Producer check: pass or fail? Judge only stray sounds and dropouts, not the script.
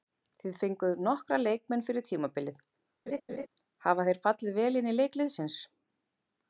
fail